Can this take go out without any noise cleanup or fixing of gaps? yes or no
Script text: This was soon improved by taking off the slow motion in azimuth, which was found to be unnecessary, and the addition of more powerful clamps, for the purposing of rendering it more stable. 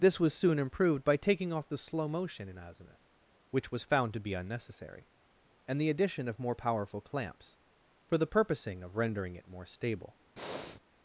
no